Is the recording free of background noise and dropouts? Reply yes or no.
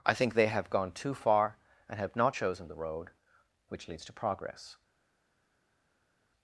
yes